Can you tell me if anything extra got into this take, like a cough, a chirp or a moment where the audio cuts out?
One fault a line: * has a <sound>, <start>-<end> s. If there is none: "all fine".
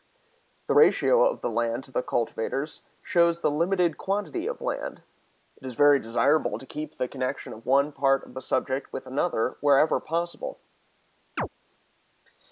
* has a chirp, 11.4-11.5 s